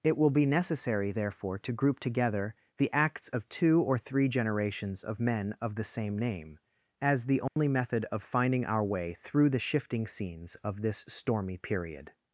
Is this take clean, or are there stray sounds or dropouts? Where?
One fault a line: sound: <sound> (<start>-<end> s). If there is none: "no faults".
sound: dropout (7.5-7.6 s)